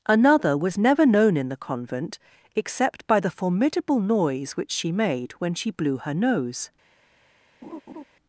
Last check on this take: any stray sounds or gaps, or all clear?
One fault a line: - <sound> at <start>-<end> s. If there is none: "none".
- laugh at 7.6-8.0 s